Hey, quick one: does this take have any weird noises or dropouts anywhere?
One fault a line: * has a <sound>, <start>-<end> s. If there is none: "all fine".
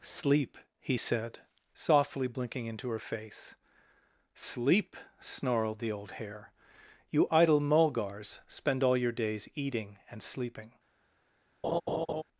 * has a laugh, 11.6-12.2 s